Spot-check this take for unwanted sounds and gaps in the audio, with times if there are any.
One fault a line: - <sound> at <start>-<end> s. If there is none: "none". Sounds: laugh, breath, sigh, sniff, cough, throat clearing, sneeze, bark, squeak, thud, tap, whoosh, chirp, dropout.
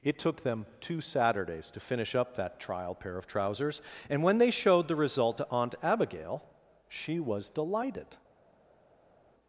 none